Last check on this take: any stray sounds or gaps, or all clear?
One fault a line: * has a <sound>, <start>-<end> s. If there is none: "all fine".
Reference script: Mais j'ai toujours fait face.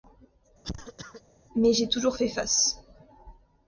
* has a cough, 0.6-1.2 s